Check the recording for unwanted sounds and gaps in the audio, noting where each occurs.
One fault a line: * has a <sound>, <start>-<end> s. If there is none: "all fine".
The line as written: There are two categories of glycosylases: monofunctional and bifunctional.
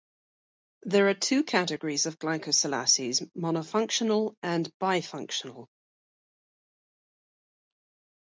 all fine